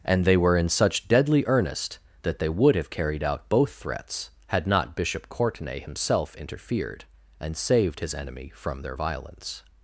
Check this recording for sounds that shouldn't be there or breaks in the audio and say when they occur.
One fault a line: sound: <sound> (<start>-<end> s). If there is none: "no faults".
no faults